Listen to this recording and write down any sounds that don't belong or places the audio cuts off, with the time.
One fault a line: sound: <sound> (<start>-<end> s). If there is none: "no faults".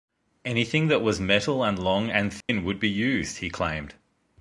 sound: dropout (2.4-2.5 s)